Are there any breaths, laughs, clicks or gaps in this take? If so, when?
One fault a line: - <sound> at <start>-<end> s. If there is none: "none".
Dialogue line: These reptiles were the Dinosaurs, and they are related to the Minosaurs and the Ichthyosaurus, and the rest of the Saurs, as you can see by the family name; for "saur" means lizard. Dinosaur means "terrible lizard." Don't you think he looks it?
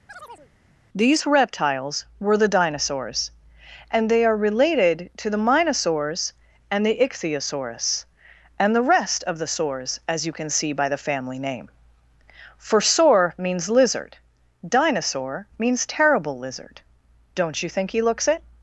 - chirp at 0.1-0.5 s